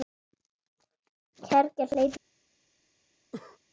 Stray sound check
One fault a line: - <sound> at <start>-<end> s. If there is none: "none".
- cough at 3.3-3.6 s